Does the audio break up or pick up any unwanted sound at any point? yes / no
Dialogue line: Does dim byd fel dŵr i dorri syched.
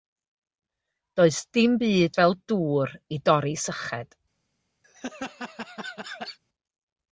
yes